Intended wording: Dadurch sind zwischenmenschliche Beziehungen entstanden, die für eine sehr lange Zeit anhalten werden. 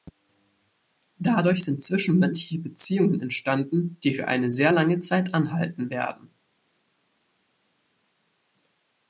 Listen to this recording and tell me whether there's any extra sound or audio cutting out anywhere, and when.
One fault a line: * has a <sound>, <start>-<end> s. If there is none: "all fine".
all fine